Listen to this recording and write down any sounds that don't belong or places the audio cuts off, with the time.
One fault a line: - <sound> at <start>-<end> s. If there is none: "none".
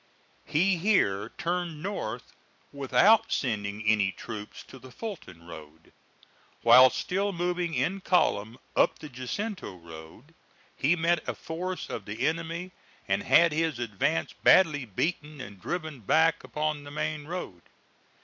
none